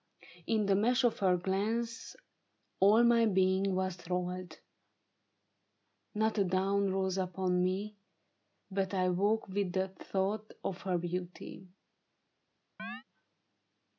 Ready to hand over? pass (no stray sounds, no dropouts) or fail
fail